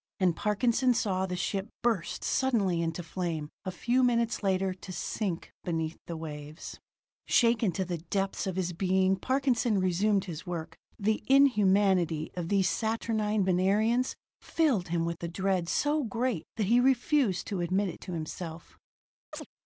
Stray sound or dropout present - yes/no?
yes